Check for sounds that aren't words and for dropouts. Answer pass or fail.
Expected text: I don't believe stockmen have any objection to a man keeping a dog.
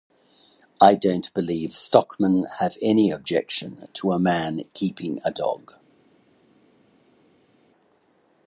pass